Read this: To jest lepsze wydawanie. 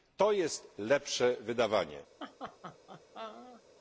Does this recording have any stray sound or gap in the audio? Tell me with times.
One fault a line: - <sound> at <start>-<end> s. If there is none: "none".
- laugh at 2.2-3.6 s